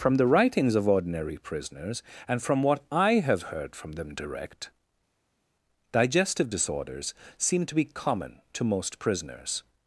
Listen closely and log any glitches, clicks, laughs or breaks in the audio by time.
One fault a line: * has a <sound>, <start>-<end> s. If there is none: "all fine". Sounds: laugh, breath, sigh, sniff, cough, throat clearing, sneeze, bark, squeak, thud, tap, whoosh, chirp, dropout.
all fine